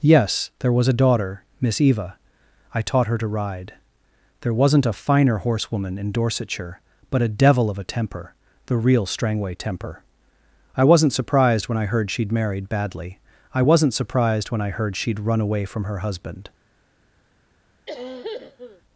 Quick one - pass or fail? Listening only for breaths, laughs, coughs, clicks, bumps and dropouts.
fail